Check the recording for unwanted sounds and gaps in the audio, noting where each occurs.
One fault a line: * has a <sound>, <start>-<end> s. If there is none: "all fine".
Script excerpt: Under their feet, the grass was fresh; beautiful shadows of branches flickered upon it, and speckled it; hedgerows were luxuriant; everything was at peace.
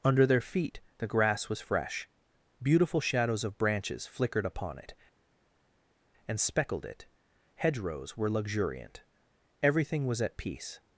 all fine